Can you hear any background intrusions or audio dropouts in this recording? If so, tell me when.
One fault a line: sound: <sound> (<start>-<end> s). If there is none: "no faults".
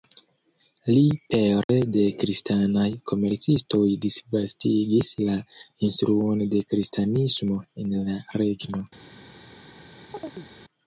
sound: dropout (1.6-1.7 s)
sound: chirp (10.1-10.5 s)